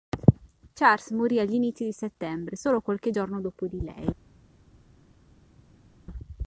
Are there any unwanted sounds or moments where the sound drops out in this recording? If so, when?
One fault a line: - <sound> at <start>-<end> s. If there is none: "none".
none